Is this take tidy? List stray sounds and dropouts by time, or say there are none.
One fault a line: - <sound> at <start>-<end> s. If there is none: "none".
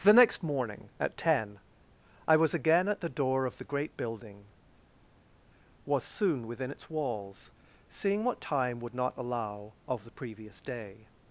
none